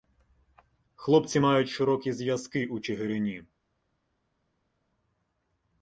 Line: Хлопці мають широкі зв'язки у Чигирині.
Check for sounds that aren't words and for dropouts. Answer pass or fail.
pass